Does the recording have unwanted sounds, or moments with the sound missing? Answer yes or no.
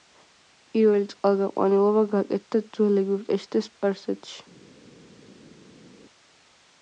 no